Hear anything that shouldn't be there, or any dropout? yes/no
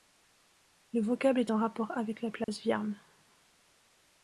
yes